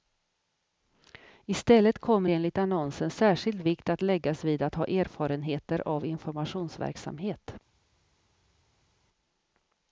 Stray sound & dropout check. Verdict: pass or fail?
pass